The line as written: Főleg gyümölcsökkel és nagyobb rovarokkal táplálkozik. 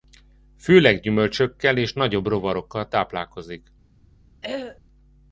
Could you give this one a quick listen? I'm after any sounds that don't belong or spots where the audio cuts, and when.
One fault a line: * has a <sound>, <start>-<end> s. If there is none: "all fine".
* has a throat clearing, 4.4-4.8 s